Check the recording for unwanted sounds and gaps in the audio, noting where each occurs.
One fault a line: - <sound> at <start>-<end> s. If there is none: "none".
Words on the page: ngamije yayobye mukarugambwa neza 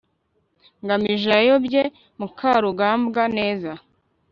none